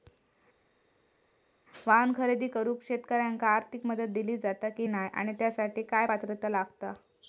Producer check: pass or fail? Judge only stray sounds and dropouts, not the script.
pass